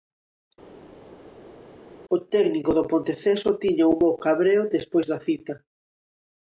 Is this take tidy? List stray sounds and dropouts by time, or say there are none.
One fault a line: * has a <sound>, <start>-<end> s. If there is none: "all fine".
all fine